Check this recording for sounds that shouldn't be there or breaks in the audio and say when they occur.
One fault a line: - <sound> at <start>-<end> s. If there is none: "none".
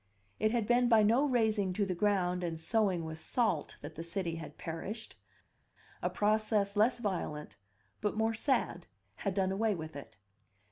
none